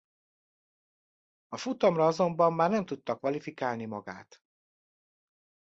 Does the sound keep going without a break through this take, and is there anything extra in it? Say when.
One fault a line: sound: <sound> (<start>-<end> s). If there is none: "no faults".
no faults